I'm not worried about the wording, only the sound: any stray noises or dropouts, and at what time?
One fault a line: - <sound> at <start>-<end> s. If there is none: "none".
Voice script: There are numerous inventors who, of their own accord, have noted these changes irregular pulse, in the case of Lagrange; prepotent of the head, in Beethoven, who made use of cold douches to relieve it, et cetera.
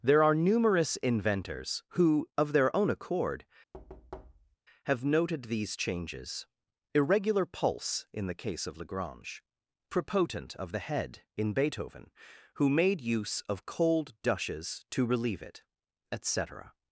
- thud at 3.7-4.6 s